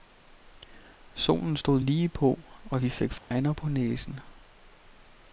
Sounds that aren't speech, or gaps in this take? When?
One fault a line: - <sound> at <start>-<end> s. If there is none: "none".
- dropout at 3.2-3.3 s